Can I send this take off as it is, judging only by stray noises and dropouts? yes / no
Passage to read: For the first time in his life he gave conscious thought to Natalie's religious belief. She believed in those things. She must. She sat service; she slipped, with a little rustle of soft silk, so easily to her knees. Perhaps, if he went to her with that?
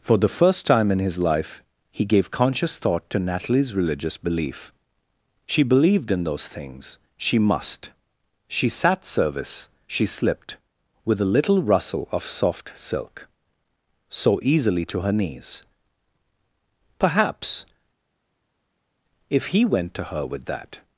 yes